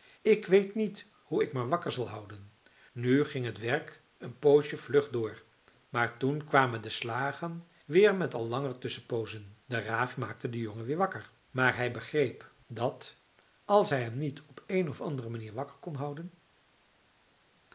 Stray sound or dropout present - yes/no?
no